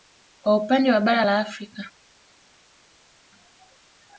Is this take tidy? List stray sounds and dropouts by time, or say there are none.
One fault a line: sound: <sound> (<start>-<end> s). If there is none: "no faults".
no faults